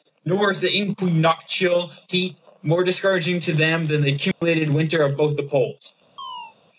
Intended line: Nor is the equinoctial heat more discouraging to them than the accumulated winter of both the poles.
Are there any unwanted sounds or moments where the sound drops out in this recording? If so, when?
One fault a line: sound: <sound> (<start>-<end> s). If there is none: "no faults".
sound: dropout (4.3-4.4 s)
sound: chirp (6.2-6.6 s)